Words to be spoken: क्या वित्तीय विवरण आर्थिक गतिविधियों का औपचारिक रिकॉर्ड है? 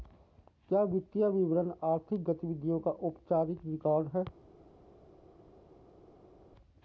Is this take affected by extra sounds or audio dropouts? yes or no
no